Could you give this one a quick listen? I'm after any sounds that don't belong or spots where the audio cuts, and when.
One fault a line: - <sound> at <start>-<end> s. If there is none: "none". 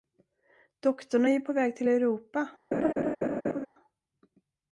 - laugh at 2.7-3.7 s